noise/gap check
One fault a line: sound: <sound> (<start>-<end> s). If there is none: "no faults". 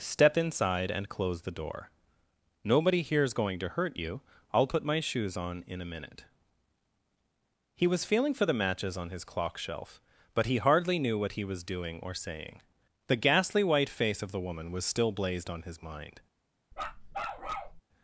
sound: bark (16.7-17.8 s)